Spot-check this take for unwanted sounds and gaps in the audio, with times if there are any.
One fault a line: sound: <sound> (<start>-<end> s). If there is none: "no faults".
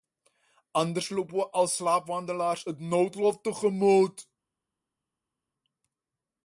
no faults